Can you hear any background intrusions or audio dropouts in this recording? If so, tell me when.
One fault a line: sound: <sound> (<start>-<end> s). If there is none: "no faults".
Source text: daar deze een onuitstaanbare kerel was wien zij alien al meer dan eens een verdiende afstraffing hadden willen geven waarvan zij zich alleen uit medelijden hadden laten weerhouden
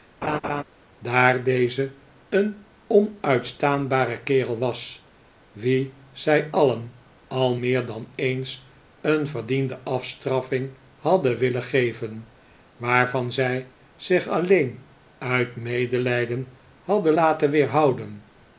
sound: laugh (0.2-0.6 s)